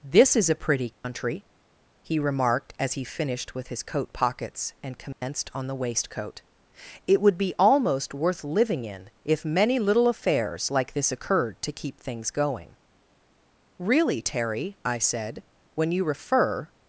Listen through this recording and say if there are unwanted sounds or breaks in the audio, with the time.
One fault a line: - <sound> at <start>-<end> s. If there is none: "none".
- dropout at 0.9-1.0 s
- dropout at 5.1-5.2 s